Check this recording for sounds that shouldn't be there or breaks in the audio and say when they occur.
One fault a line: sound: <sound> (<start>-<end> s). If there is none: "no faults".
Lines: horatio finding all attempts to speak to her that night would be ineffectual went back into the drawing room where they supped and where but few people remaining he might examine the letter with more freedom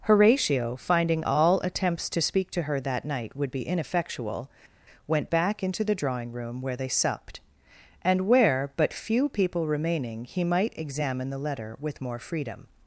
no faults